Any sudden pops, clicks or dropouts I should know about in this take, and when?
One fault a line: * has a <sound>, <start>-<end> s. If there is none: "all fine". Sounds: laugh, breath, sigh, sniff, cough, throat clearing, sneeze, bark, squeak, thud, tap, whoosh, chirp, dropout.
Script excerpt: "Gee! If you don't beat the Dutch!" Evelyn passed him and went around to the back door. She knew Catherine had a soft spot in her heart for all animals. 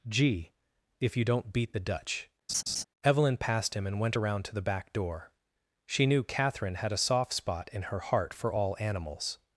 * has a laugh, 2.5-2.8 s